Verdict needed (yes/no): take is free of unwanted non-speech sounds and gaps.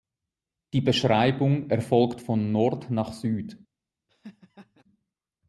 no